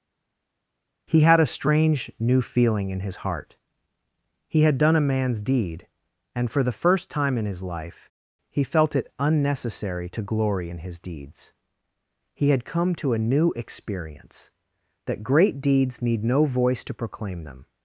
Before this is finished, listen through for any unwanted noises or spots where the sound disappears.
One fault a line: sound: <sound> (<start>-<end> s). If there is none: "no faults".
no faults